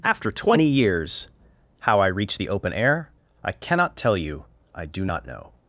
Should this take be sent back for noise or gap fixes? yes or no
no